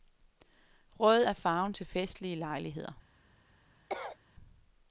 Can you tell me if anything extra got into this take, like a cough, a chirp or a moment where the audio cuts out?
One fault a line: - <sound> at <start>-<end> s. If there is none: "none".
- cough at 3.9-4.2 s